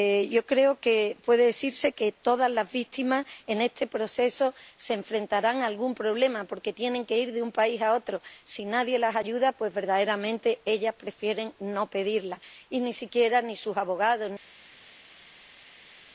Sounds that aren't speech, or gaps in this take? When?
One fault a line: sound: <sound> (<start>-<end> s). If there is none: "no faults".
no faults